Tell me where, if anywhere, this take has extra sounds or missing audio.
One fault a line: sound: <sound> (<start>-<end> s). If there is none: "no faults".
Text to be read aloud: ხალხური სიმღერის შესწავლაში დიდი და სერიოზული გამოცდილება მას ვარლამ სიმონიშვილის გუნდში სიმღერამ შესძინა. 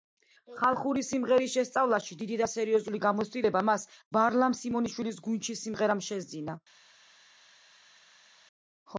no faults